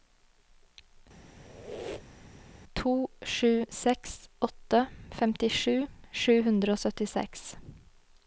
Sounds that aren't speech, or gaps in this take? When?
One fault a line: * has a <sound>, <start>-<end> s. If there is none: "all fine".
* has a squeak, 1.3-2.4 s